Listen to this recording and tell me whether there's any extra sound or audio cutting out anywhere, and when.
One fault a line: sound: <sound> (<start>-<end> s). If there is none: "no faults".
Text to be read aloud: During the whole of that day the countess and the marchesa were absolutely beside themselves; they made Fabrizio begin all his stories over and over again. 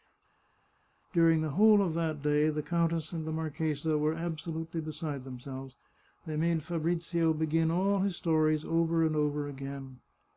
no faults